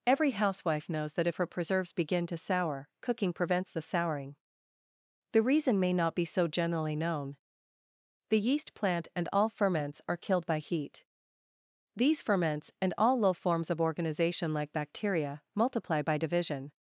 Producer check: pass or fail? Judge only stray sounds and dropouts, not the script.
pass